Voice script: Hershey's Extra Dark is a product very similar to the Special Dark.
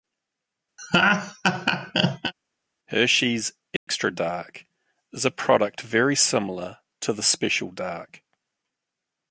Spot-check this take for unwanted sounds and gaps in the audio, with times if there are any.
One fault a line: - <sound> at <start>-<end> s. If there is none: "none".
- laugh at 0.8-2.3 s
- dropout at 3.8-3.9 s